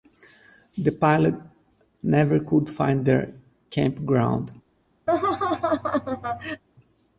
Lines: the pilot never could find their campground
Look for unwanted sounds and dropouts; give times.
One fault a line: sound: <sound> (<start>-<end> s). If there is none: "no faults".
sound: laugh (5.1-6.6 s)